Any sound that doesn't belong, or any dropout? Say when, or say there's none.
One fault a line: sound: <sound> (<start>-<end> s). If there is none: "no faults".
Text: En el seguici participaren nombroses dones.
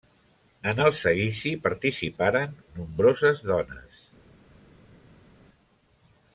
no faults